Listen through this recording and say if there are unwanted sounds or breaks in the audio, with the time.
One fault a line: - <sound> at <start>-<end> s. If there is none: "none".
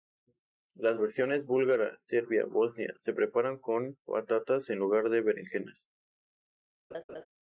- laugh at 6.9-7.2 s